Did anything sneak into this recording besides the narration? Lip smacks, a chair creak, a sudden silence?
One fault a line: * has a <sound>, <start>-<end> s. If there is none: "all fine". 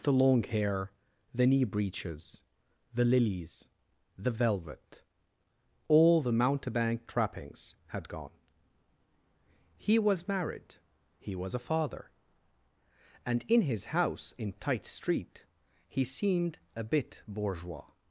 all fine